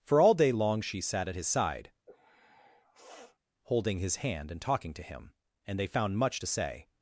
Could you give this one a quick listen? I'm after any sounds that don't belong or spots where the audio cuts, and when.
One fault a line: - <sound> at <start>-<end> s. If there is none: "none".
- sniff at 2.1-3.4 s